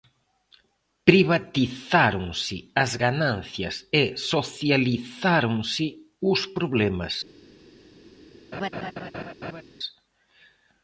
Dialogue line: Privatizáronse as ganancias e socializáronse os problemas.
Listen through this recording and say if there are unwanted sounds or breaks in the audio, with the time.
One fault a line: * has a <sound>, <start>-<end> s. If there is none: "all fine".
* has a laugh, 8.5-9.6 s